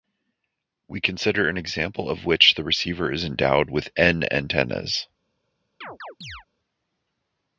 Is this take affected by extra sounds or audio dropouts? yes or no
yes